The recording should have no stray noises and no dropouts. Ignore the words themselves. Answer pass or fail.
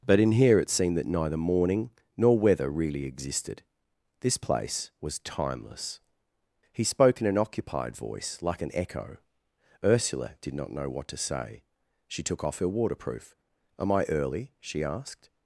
pass